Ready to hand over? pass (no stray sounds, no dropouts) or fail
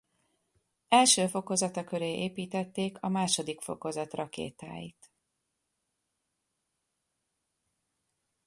pass